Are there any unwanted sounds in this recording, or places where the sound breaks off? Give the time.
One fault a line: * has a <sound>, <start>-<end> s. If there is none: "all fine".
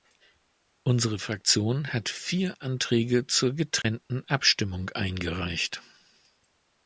* has a dropout, 3.8-3.8 s